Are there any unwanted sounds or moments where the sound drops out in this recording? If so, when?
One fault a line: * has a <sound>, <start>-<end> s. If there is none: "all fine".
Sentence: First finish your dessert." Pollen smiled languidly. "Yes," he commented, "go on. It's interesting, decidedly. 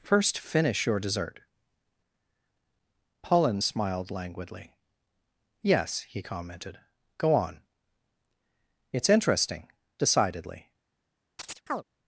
* has a chirp, 11.4-11.8 s